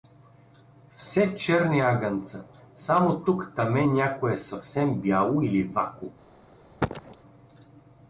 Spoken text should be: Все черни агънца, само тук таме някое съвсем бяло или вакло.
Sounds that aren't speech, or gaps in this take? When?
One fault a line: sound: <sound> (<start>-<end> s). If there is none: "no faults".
sound: cough (6.8-7.2 s)